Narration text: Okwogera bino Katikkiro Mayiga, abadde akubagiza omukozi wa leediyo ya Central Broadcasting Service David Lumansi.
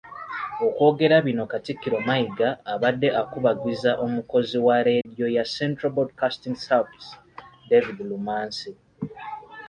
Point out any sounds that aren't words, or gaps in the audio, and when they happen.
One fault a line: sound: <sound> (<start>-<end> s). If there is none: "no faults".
sound: dropout (5.0-5.1 s)